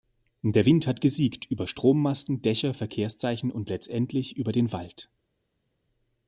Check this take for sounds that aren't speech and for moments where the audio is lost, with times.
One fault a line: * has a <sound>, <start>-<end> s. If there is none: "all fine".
all fine